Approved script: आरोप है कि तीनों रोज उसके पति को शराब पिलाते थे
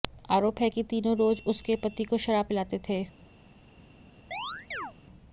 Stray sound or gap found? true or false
true